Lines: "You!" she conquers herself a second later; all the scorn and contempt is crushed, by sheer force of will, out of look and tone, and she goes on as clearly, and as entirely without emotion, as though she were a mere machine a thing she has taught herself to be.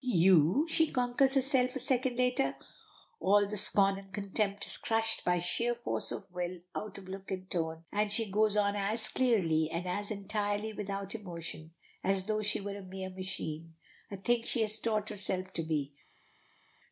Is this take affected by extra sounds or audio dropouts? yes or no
no